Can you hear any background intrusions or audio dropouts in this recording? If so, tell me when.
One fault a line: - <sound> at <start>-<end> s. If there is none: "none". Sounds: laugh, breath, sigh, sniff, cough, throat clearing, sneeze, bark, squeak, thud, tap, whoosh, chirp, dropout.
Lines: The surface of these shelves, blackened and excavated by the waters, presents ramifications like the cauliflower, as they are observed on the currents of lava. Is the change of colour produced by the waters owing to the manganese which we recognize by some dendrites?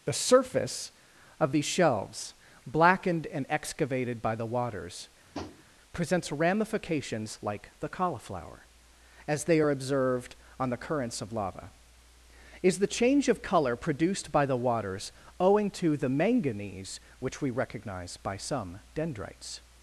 - tap at 5.3-5.6 s